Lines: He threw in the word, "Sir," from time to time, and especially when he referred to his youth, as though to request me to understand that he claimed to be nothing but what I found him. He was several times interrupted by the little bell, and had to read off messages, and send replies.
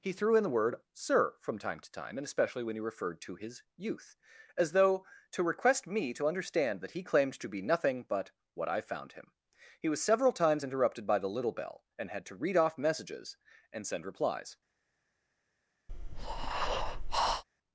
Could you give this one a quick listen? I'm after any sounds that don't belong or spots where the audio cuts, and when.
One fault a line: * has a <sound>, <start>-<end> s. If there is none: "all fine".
* has a breath, 15.9-17.4 s